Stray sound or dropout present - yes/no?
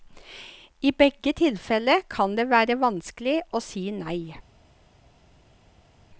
no